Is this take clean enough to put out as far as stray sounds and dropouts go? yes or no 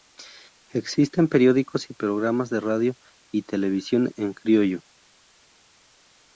yes